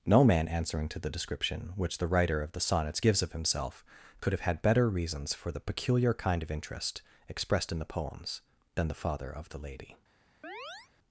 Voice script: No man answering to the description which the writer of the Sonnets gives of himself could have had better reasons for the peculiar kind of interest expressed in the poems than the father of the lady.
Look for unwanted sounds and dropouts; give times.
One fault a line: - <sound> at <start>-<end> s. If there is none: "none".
- chirp at 10.4-10.9 s